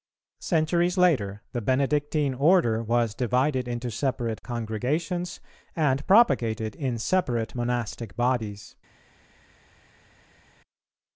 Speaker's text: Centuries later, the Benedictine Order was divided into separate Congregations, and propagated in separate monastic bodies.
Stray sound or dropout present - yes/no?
no